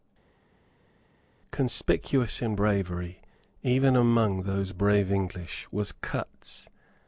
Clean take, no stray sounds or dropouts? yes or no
yes